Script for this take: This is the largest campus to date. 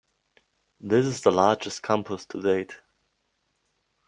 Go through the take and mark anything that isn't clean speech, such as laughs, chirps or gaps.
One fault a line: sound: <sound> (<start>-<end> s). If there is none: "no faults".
no faults